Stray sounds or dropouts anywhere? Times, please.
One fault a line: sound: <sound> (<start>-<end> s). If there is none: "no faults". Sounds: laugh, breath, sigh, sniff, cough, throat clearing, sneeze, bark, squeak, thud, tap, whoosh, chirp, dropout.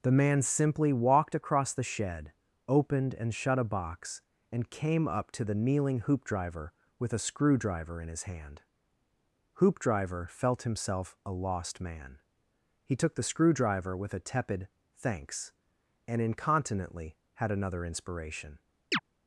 sound: chirp (18.9-19.0 s)